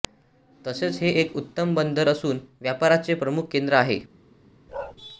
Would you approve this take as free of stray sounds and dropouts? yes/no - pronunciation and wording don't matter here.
no